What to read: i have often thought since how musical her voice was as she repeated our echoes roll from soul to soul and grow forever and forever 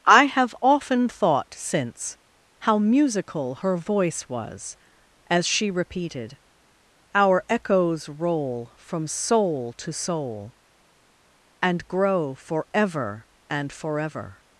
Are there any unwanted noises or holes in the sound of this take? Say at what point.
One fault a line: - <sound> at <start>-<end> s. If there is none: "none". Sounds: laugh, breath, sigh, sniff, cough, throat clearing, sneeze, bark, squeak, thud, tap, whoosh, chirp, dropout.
none